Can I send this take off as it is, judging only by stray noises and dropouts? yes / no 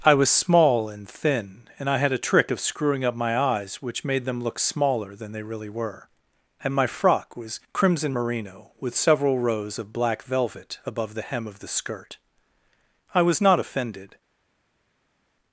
yes